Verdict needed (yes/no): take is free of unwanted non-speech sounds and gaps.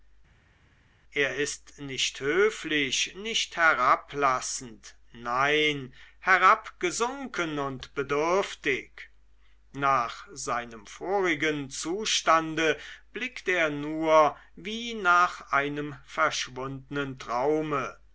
yes